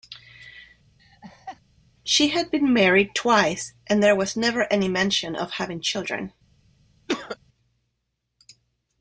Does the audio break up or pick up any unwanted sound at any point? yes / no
yes